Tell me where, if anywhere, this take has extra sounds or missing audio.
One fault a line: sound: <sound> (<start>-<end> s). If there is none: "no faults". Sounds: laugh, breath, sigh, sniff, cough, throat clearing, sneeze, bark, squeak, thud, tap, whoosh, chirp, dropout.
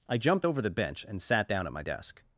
no faults